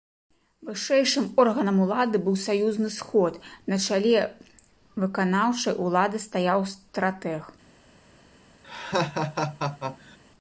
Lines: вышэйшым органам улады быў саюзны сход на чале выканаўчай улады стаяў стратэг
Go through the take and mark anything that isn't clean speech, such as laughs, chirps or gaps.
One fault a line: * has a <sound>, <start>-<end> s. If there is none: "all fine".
* has a laugh, 8.6-10.2 s